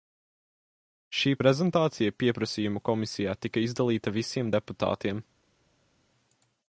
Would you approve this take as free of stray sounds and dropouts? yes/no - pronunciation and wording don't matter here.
yes